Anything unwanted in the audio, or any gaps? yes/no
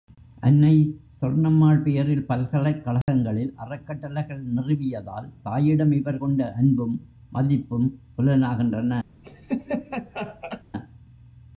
yes